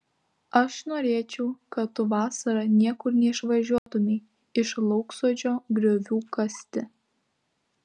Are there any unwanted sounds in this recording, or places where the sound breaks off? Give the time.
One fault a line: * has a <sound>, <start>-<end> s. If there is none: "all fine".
* has a dropout, 3.8-3.9 s